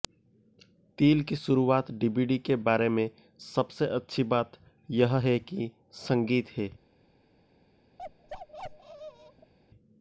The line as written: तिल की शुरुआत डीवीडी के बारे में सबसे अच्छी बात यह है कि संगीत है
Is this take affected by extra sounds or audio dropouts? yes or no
yes